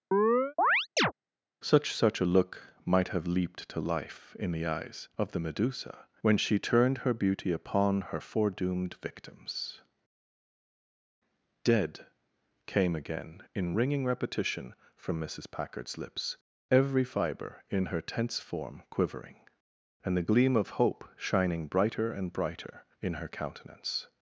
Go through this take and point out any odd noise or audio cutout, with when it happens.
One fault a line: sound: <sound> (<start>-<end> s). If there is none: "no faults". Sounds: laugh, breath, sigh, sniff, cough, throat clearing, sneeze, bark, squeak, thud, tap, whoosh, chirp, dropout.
sound: chirp (0.1-1.1 s)